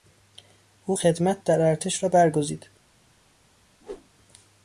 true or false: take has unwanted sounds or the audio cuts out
true